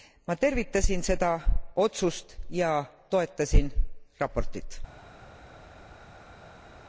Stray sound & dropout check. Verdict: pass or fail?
pass